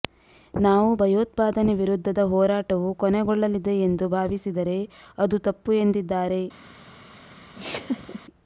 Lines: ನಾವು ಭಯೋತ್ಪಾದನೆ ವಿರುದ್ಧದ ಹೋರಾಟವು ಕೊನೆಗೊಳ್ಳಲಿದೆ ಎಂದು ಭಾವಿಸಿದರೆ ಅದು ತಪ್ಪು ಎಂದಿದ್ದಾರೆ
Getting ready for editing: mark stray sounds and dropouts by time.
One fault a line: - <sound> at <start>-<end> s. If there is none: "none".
- laugh at 7.5-8.2 s